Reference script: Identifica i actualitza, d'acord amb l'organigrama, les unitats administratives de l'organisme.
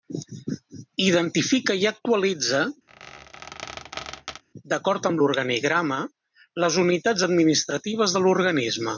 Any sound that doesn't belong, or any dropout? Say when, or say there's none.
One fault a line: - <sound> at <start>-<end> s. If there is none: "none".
- squeak at 2.9-4.4 s